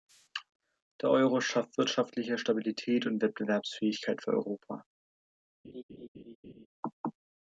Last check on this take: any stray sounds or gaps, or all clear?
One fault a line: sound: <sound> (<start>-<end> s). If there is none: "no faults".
sound: laugh (5.6-6.7 s)